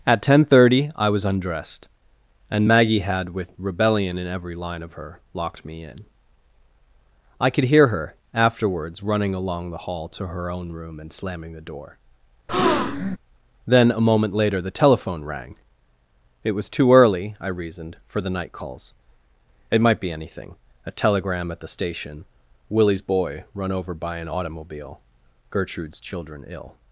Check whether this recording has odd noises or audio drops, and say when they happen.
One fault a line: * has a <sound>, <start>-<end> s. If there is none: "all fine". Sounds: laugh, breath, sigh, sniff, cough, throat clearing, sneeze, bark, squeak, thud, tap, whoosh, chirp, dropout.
* has a breath, 12.5-13.2 s